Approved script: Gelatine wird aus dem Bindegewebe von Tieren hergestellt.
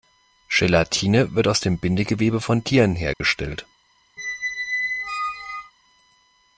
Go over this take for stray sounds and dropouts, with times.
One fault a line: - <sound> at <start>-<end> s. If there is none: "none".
- dropout at 3.1-3.2 s
- squeak at 4.2-5.7 s